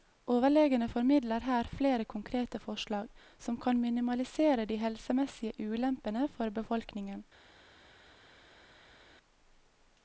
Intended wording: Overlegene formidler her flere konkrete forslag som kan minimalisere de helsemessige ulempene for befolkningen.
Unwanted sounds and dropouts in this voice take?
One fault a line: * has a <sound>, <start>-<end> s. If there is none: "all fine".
all fine